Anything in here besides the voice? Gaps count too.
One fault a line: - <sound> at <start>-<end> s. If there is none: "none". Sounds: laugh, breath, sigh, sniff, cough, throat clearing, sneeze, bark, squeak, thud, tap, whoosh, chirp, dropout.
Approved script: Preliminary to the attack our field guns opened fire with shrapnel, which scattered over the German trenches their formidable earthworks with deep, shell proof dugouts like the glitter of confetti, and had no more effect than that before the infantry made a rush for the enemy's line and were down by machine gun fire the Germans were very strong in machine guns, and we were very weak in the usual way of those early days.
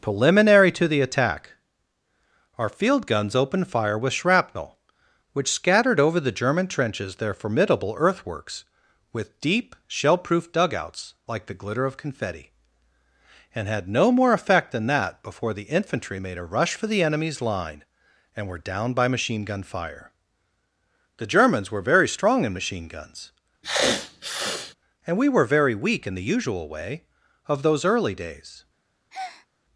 - sniff at 23.6-24.7 s
- breath at 29.1-29.5 s